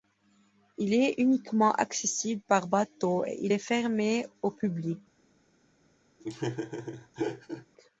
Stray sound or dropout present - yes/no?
yes